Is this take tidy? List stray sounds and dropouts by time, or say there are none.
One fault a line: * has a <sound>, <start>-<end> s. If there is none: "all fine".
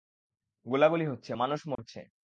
* has a dropout, 1.7-1.8 s